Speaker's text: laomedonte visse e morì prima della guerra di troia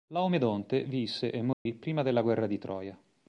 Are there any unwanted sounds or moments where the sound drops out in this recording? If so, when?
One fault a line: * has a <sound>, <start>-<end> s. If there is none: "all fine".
* has a dropout, 1.5-1.7 s